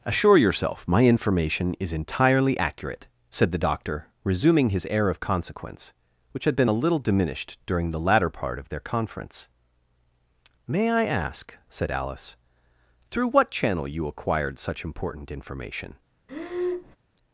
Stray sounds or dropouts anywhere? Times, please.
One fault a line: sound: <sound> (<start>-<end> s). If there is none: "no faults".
sound: breath (16.3-17.0 s)